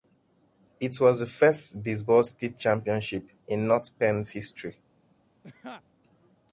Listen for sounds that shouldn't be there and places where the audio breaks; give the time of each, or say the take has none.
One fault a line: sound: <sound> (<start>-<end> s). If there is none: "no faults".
sound: laugh (5.4-5.8 s)